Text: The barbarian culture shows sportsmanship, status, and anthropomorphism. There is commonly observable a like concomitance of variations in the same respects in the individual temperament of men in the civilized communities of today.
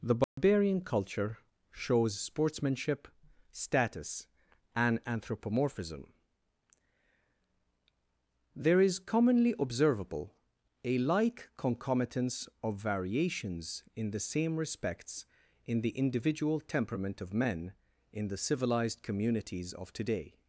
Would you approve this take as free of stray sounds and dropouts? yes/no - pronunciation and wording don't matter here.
no